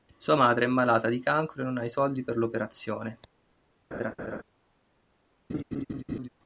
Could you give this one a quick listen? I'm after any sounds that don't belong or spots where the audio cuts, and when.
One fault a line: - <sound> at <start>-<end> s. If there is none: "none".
- laugh at 3.9-4.4 s
- laugh at 5.5-6.3 s